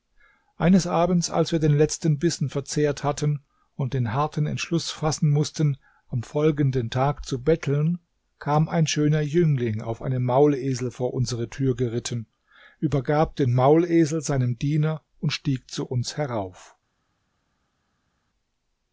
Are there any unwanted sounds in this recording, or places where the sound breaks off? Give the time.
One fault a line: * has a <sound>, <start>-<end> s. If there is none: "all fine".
all fine